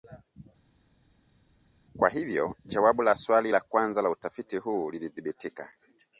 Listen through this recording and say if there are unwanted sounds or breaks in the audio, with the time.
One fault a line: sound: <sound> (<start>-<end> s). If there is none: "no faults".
no faults